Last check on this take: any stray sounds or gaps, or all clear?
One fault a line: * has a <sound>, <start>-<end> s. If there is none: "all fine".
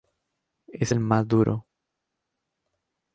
all fine